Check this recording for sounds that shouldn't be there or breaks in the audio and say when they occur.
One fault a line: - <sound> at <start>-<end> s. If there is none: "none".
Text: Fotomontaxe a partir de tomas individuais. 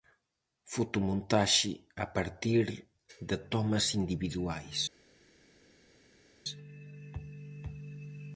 none